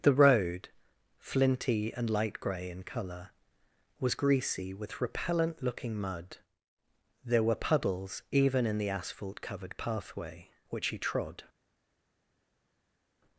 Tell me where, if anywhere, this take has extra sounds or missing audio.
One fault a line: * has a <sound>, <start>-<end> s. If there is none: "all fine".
all fine